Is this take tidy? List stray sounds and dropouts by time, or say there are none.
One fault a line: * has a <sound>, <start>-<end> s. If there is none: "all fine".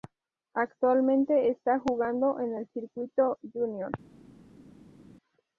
all fine